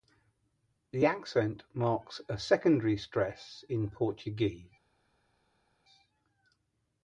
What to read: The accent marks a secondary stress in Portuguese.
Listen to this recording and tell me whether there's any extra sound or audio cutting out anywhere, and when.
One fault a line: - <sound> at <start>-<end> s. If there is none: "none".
none